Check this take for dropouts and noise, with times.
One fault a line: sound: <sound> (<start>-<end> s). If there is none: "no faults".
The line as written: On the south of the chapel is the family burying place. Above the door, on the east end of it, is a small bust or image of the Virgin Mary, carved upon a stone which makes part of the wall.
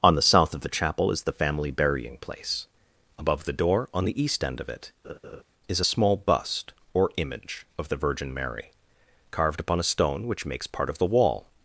sound: laugh (5.0-5.4 s)